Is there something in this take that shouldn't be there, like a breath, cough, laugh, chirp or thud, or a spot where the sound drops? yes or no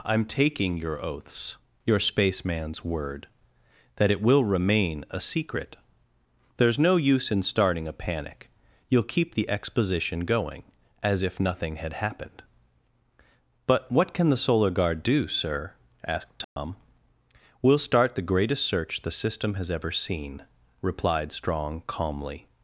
yes